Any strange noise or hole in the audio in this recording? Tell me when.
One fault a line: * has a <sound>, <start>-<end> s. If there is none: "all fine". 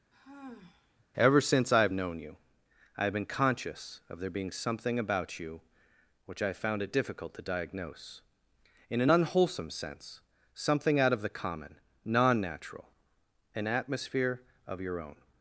* has a sigh, 0.1-1.1 s